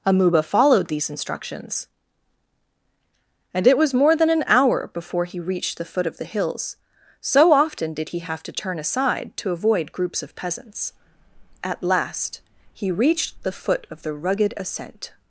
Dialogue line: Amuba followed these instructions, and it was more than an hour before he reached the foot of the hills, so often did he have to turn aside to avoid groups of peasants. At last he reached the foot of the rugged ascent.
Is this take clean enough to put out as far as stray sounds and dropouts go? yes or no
yes